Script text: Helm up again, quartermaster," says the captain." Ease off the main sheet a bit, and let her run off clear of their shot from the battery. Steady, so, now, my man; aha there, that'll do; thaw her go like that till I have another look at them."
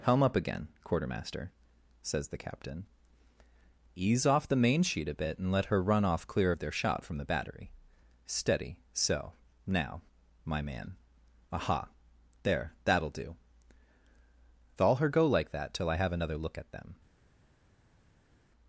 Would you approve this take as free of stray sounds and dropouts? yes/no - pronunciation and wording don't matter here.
yes